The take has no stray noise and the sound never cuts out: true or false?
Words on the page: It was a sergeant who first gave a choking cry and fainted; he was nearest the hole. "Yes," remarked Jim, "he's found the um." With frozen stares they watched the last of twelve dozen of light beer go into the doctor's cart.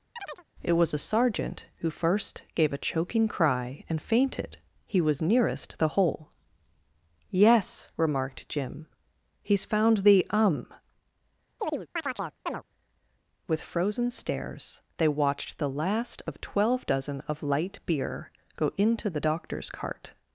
false